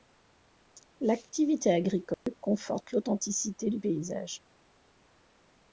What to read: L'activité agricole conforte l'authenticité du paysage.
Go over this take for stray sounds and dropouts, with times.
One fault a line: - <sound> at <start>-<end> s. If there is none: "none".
- dropout at 2.1-2.3 s